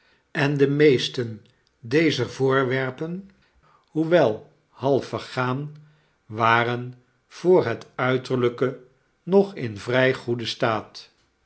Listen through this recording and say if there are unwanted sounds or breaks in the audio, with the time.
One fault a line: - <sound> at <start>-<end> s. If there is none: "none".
none